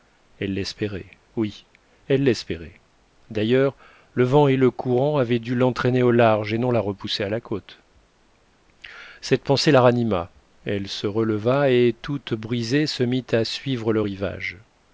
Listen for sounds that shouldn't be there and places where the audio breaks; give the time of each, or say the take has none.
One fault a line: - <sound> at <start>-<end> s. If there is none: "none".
none